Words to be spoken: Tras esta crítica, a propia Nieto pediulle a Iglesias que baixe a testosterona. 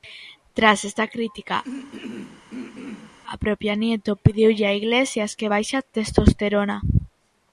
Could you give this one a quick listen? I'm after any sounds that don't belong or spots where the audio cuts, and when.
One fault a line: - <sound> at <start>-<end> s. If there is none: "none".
- throat clearing at 1.6-3.2 s